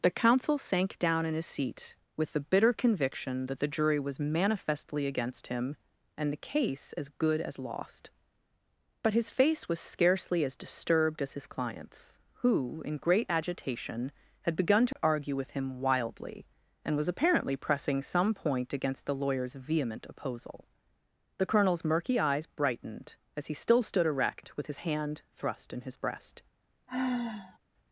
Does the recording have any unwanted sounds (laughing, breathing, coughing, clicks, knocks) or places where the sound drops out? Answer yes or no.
yes